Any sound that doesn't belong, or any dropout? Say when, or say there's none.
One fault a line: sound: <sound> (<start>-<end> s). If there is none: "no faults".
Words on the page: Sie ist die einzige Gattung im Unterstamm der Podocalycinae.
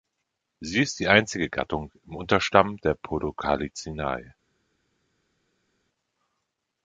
no faults